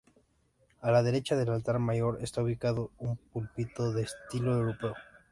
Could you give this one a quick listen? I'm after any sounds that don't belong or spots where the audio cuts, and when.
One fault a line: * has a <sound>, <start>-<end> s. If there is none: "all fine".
all fine